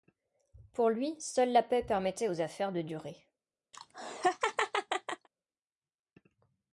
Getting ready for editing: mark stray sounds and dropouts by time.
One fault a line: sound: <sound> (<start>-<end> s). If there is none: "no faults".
sound: laugh (3.7-5.3 s)